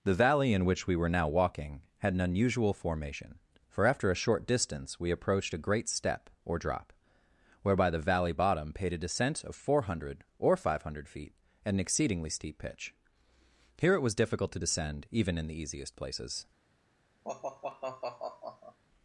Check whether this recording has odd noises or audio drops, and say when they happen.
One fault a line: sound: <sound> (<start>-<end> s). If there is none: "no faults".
sound: sigh (17.2-18.8 s)